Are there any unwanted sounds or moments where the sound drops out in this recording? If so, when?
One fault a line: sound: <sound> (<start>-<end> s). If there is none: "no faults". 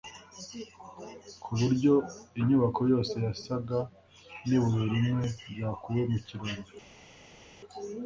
no faults